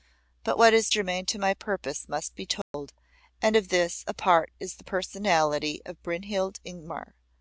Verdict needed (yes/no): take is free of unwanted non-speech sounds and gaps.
no